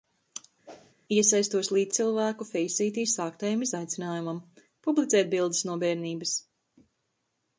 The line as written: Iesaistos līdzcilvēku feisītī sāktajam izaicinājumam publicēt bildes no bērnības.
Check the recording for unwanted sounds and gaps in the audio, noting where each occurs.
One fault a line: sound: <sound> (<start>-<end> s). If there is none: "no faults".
sound: whoosh (0.7-0.9 s)